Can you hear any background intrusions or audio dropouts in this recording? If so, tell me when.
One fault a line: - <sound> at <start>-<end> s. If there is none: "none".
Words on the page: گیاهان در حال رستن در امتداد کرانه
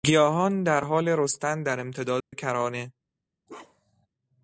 - dropout at 2.2-2.3 s
- bark at 3.5-4.1 s